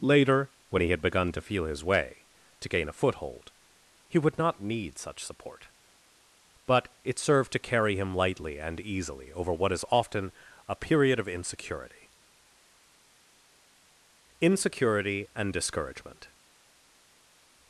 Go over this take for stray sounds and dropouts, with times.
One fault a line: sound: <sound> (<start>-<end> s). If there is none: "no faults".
no faults